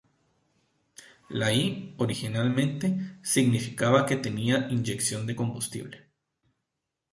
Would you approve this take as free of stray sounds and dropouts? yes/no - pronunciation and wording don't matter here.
yes